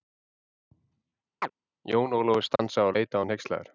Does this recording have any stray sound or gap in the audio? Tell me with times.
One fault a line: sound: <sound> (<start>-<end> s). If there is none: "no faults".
sound: chirp (1.4-1.5 s)
sound: dropout (2.6-2.6 s)